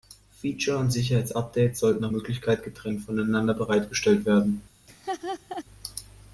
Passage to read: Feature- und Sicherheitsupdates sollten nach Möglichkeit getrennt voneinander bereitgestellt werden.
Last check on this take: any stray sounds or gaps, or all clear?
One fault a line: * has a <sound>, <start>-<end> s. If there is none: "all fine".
* has a laugh, 4.9-5.6 s